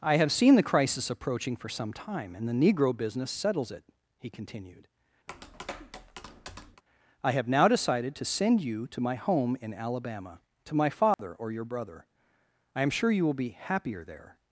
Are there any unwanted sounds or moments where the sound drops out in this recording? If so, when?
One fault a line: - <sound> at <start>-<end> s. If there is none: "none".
- tap at 5.3-6.8 s
- dropout at 11.1-11.2 s